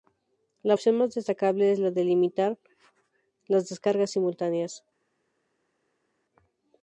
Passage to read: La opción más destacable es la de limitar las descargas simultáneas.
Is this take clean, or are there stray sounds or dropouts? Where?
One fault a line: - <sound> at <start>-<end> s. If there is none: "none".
none